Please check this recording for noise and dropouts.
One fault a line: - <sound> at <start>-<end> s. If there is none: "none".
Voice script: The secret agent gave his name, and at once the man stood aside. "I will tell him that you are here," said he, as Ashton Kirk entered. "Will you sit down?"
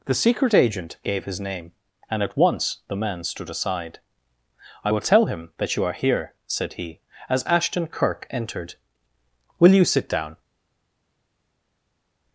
none